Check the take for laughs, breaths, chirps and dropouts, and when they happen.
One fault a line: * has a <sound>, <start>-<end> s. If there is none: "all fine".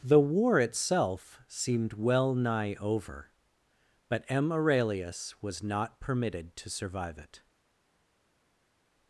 all fine